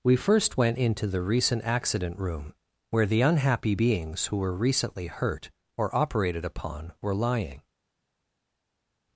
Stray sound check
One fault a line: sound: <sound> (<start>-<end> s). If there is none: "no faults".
no faults